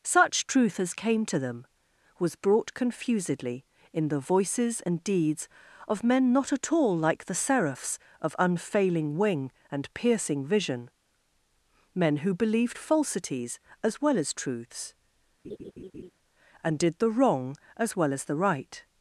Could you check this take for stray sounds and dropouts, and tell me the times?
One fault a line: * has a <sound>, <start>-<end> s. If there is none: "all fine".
* has a laugh, 15.4-16.1 s